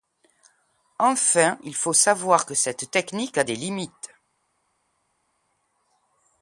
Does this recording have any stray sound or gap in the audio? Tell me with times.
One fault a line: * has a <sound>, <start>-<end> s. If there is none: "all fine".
all fine